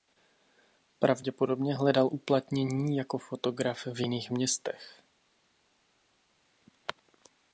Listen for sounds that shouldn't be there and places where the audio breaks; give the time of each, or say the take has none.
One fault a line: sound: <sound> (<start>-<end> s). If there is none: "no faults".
no faults